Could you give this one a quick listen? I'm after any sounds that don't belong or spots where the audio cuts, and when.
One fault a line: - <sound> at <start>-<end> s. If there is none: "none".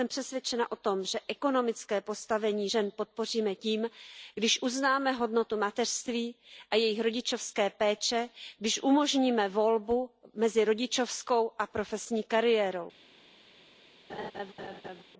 - laugh at 14.1-15.0 s